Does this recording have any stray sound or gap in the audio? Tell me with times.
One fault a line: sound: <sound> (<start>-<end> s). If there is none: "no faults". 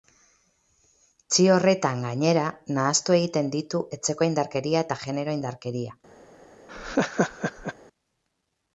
sound: laugh (6.7-7.7 s)